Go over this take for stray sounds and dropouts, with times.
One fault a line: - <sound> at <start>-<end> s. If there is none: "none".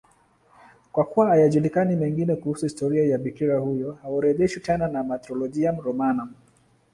none